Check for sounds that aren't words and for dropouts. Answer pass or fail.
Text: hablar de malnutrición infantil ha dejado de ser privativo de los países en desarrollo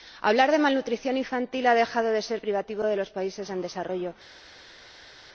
pass